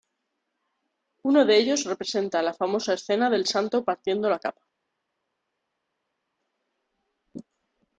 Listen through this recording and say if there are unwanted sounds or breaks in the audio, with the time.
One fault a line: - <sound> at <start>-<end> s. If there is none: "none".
none